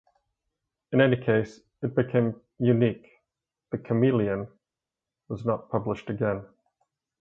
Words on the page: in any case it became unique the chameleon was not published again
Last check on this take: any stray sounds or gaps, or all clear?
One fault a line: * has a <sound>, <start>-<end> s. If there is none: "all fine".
all fine